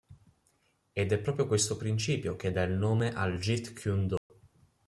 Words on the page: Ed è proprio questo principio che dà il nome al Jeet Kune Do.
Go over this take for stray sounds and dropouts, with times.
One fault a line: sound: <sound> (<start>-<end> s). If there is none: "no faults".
sound: dropout (4.2-4.3 s)